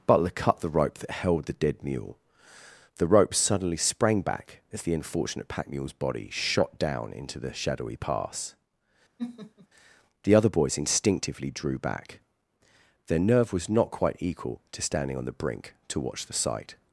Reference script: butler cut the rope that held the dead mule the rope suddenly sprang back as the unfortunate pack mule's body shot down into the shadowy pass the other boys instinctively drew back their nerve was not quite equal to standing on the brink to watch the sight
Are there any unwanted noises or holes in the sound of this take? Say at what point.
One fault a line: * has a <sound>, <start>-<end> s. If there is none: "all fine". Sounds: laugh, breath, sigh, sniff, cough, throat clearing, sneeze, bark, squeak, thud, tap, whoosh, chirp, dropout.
* has a laugh, 9.2-9.7 s